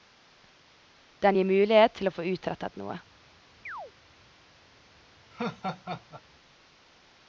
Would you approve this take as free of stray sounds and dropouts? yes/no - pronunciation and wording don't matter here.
no